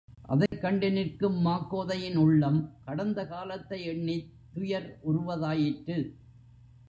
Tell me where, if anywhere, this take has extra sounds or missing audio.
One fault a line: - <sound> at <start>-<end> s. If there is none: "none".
- dropout at 0.5-0.5 s